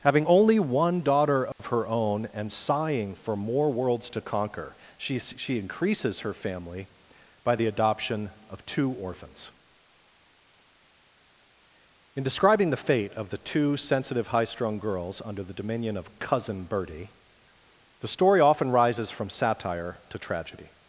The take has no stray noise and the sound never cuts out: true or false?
false